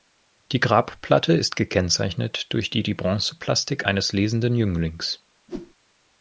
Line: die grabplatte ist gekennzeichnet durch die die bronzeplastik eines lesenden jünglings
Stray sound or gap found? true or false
true